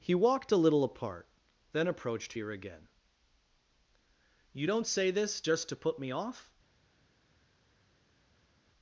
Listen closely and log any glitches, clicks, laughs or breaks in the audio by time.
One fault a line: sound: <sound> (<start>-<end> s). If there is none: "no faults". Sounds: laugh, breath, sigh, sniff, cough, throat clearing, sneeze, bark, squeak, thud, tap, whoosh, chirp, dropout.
no faults